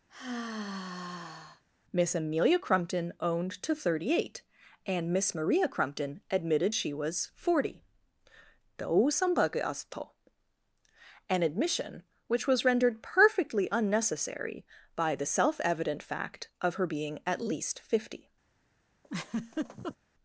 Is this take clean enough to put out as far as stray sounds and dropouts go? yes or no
no